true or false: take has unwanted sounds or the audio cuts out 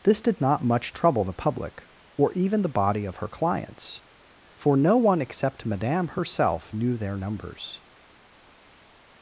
false